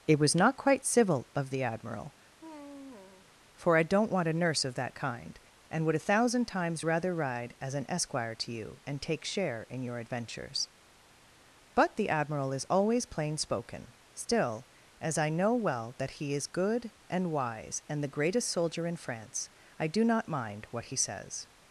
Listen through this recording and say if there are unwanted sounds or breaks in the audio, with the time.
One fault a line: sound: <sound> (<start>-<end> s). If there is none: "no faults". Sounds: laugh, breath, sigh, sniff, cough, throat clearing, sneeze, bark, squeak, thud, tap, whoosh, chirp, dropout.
sound: sigh (2.4-3.3 s)